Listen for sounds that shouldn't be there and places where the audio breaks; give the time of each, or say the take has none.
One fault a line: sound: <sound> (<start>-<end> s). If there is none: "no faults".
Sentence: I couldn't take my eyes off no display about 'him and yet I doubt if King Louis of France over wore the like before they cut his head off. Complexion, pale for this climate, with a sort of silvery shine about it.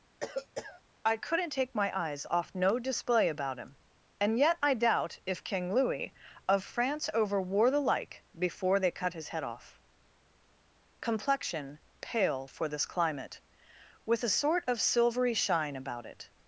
sound: cough (0.2-0.8 s)